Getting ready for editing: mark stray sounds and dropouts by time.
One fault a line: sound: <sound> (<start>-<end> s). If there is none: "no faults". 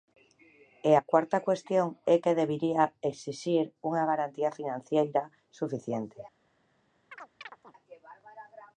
sound: chirp (7.1-7.7 s)